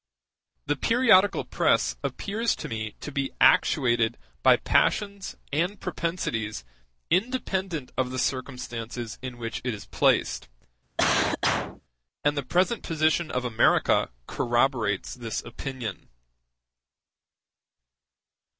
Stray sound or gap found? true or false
true